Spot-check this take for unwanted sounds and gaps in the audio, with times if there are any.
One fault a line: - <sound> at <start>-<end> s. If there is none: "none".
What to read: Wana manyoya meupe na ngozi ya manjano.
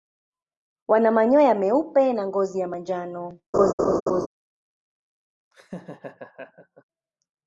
- laugh at 3.5-4.3 s
- laugh at 5.5-6.8 s